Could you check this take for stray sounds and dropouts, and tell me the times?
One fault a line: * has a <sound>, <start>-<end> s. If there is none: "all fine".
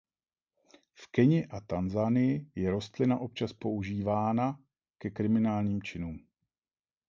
all fine